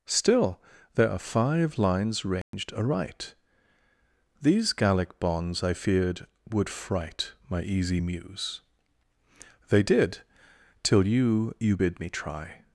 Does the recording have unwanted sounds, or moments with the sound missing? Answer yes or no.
yes